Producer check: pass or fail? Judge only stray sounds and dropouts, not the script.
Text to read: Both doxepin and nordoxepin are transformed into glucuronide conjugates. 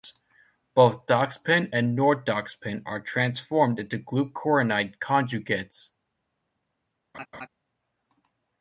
fail